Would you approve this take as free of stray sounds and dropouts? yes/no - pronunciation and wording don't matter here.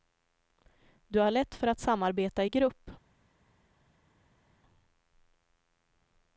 yes